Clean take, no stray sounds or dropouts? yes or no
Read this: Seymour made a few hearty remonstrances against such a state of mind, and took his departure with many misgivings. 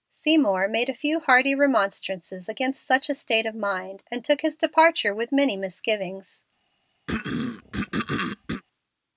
no